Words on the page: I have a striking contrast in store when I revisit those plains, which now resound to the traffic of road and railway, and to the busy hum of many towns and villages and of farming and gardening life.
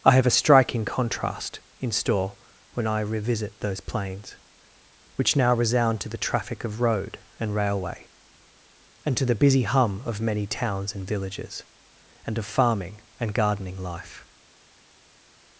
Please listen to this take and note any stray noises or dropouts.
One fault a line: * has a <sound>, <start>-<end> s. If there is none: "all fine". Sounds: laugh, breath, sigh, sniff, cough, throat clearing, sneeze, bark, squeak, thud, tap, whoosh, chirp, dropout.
all fine